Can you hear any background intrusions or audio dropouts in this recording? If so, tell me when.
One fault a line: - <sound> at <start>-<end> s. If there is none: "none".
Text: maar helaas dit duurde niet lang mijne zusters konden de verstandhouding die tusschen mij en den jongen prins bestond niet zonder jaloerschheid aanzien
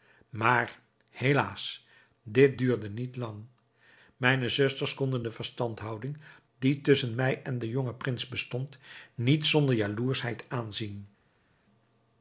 none